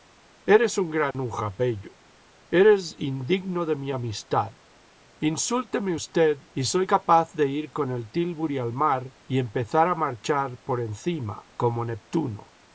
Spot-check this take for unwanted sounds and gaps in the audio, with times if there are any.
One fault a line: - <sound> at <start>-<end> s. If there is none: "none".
- dropout at 1.1-1.1 s